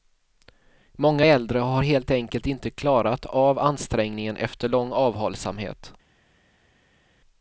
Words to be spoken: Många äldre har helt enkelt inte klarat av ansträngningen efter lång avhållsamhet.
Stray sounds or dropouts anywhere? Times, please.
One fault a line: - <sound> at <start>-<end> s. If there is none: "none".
none